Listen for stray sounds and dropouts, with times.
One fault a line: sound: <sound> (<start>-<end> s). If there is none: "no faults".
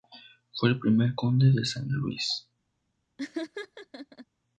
sound: laugh (3.2-4.3 s)